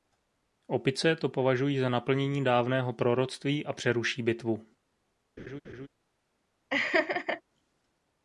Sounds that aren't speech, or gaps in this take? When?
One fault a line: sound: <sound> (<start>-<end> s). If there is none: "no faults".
sound: laugh (5.4-5.9 s)
sound: laugh (6.7-7.4 s)